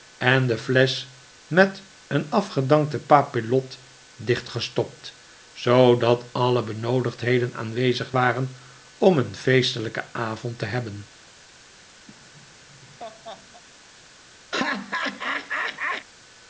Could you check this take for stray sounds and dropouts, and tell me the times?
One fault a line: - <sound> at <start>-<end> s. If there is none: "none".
- laugh at 12.1-13.6 s
- laugh at 14.5-16.1 s